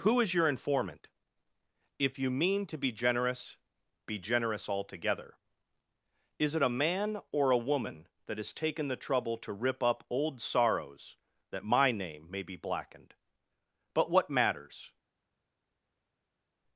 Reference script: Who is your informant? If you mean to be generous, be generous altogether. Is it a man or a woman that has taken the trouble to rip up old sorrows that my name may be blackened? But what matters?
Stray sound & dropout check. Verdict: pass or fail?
pass